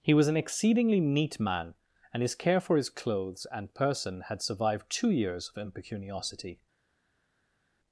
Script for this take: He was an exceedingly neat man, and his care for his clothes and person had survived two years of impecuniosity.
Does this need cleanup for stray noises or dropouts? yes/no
no